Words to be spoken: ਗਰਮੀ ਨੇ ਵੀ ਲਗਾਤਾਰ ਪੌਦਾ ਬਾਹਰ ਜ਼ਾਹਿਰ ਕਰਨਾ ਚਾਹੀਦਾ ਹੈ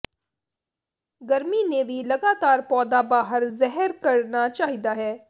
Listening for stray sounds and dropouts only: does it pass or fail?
pass